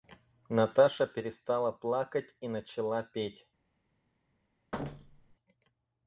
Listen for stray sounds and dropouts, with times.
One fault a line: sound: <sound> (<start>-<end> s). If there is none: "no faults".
sound: thud (4.7-5.4 s)